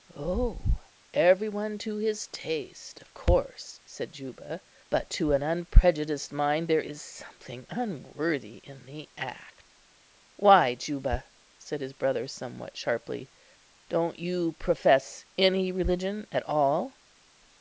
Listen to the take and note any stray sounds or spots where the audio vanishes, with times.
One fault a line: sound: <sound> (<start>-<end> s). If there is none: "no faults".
no faults